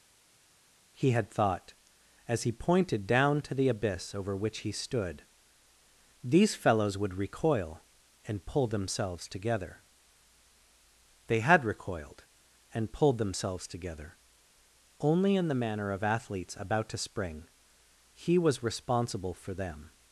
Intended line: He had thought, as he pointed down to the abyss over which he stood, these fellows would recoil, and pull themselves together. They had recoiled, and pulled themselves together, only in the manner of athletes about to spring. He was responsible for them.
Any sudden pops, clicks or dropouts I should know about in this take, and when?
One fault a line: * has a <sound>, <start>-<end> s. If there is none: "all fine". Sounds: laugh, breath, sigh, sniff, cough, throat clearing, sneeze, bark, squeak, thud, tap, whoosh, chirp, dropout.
all fine